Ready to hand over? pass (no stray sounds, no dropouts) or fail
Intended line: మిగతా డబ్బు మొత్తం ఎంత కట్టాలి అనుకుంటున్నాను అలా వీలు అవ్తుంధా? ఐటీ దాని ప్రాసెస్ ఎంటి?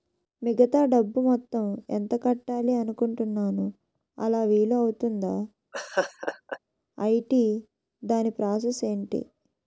fail